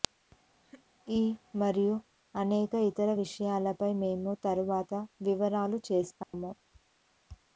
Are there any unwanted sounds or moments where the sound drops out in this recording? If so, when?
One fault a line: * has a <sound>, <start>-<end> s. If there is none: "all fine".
* has a laugh, 0.6-0.9 s
* has a dropout, 6.2-6.3 s